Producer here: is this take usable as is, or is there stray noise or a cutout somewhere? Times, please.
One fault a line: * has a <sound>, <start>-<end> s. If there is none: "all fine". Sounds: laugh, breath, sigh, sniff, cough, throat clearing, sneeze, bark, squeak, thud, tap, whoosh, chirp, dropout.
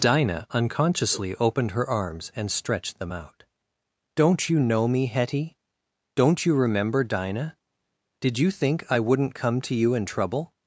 all fine